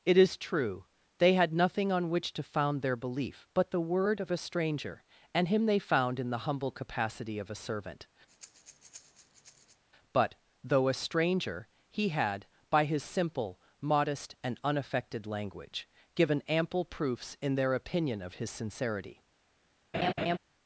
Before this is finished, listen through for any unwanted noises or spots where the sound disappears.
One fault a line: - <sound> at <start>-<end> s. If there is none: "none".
- breath at 8.3-9.8 s
- laugh at 19.9-20.4 s